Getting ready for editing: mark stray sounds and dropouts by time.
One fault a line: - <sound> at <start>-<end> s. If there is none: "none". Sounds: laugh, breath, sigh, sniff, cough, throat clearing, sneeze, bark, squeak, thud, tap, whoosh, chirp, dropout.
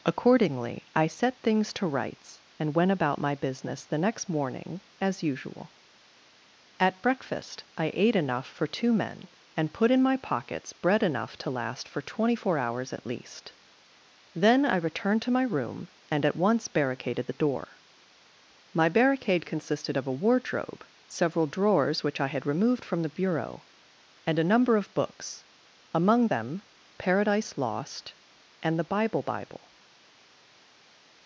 none